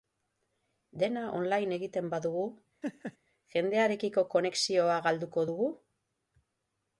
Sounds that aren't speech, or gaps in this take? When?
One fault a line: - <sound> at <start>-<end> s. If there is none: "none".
- laugh at 2.8-3.2 s